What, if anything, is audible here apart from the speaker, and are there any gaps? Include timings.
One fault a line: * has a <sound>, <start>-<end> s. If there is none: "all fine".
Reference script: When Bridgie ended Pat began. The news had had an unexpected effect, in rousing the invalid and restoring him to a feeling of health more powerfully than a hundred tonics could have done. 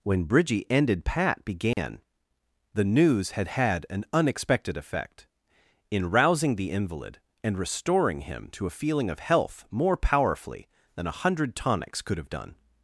* has a dropout, 1.7-1.8 s